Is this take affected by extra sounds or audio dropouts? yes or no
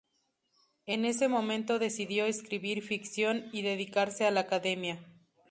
no